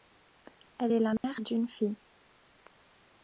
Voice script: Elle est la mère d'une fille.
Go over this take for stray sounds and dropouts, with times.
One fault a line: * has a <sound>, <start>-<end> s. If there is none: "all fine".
* has a dropout, 1.2-1.2 s